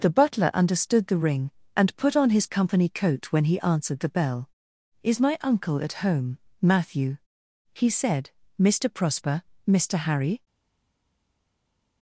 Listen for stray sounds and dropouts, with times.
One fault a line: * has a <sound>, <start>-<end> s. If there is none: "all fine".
all fine